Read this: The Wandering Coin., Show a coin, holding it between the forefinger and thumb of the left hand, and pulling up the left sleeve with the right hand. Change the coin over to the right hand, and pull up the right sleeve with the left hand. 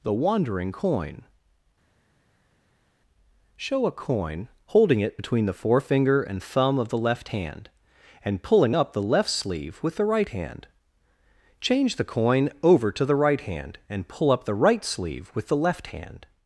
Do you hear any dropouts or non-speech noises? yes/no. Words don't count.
no